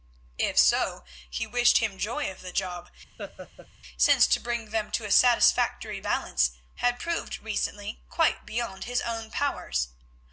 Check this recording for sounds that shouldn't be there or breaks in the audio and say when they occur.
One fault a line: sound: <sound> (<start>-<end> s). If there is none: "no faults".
sound: laugh (3.2-3.7 s)